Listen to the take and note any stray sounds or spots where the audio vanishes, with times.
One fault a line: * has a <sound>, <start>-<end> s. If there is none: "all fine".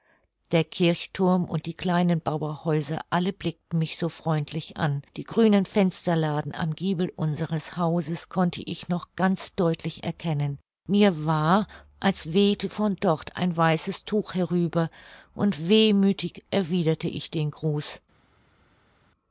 all fine